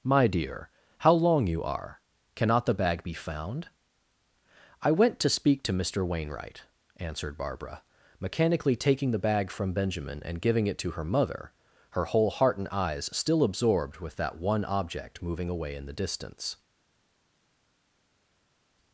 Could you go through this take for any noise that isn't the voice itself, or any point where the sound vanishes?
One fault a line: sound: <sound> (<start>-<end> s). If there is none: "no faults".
no faults